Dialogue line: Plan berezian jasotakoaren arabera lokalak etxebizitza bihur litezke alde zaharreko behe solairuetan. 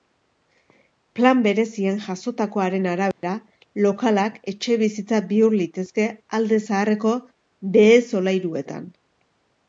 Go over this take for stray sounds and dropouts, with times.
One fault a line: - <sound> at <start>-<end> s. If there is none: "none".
- dropout at 3.1-3.2 s